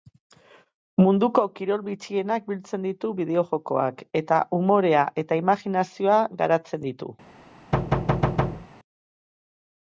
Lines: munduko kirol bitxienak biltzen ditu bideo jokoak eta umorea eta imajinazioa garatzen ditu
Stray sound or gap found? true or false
true